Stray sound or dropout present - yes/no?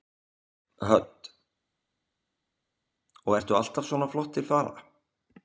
no